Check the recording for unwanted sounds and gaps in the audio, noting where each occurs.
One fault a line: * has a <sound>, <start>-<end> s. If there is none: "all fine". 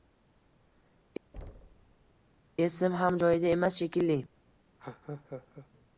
* has a thud, 1.3-2.1 s
* has a laugh, 4.8-5.7 s